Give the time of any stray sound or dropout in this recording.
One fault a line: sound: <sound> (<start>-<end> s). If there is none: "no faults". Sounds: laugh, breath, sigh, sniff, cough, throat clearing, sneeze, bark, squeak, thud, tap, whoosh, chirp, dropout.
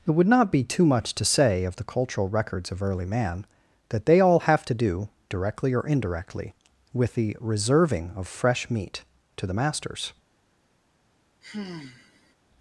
sound: sigh (11.4-12.3 s)